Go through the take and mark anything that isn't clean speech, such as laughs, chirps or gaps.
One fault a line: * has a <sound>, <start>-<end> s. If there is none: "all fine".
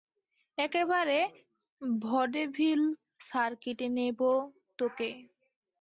all fine